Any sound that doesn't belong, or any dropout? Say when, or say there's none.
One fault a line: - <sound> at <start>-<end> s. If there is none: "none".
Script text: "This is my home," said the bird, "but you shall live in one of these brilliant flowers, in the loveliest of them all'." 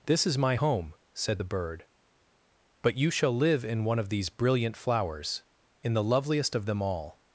none